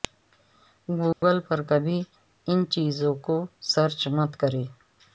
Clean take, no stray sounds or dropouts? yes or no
no